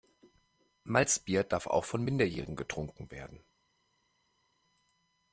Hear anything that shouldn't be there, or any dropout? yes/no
no